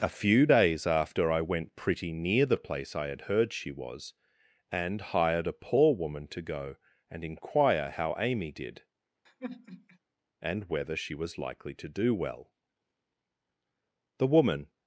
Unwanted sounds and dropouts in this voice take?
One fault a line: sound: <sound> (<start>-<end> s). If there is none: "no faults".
sound: sigh (9.3-10.0 s)